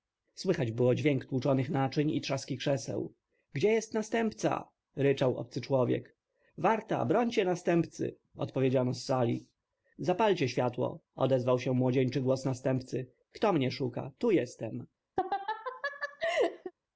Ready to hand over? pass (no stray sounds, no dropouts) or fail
fail